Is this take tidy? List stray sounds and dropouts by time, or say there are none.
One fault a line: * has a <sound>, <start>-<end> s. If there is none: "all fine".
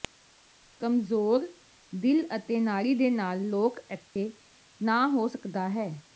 * has a dropout, 4.1-4.2 s